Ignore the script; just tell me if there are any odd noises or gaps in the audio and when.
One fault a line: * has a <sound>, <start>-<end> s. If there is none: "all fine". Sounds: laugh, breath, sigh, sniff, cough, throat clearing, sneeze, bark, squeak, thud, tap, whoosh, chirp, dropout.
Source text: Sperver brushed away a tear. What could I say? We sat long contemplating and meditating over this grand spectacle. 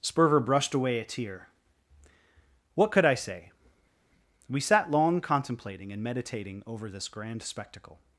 all fine